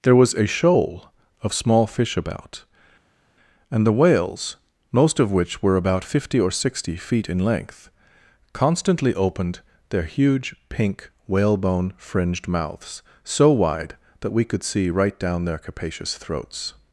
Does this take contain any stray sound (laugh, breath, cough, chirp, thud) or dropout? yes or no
no